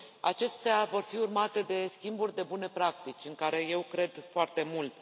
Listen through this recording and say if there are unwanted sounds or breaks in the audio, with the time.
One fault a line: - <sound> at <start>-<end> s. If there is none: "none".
none